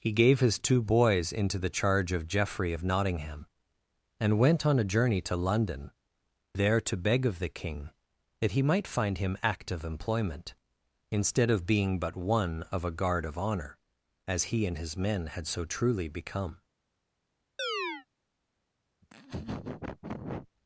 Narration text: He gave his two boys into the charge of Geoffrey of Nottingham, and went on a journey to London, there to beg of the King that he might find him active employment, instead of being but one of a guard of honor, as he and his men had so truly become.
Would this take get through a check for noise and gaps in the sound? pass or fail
fail